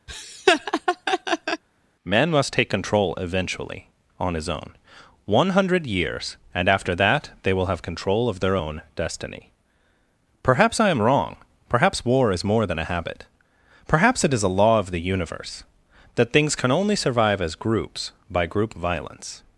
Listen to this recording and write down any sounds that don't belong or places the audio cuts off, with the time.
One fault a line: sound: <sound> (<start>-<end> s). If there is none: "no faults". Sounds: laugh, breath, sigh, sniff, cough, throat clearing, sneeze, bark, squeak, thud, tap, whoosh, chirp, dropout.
sound: laugh (0.1-1.6 s)